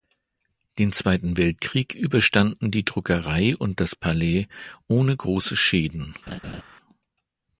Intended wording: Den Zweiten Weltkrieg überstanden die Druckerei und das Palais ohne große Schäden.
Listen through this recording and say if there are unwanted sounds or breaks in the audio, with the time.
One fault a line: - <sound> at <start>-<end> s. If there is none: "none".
- laugh at 6.3-6.6 s